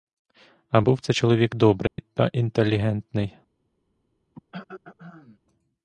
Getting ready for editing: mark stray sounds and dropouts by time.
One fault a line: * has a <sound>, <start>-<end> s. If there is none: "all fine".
* has a dropout, 1.9-2.0 s
* has a throat clearing, 4.3-5.4 s